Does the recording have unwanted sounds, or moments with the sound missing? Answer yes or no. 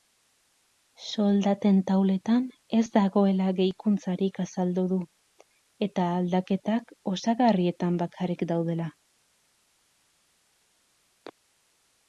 no